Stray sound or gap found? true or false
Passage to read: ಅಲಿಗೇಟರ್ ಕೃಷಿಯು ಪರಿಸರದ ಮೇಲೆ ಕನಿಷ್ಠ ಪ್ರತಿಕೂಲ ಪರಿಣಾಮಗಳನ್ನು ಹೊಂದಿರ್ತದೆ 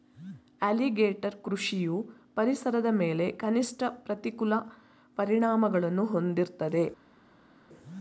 false